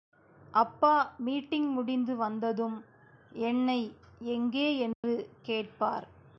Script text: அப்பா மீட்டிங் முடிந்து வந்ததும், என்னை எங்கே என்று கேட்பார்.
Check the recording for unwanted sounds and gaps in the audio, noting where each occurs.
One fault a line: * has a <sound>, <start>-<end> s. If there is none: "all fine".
* has a dropout, 4.9-5.0 s